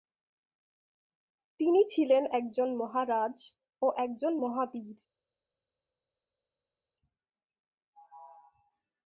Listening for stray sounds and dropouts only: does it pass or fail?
pass